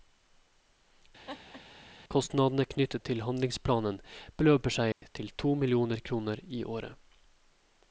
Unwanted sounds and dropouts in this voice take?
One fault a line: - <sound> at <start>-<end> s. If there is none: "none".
- laugh at 1.3-1.6 s
- dropout at 4.9-5.0 s